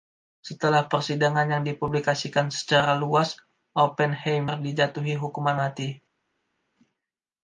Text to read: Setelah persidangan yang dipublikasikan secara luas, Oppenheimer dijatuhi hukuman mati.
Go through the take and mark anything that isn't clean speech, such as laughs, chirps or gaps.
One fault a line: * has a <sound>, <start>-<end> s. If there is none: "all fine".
all fine